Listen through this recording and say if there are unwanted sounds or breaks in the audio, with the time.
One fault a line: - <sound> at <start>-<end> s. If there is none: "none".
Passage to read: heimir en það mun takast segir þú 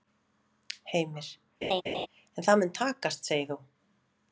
- laugh at 1.6-2.1 s